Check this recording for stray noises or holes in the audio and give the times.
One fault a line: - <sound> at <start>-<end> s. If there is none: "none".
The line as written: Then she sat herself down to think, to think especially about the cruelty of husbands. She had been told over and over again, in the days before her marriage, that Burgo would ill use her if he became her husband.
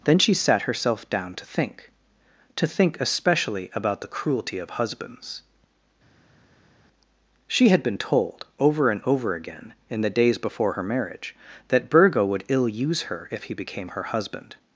none